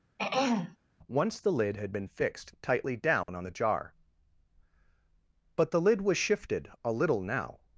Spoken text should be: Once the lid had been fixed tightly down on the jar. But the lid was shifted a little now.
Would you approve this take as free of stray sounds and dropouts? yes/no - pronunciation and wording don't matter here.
no